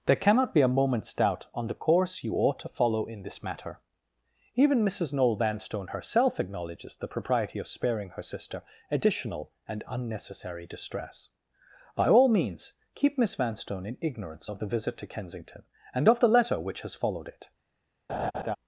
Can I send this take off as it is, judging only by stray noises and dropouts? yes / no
no